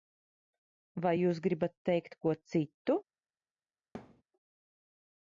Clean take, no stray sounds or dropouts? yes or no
no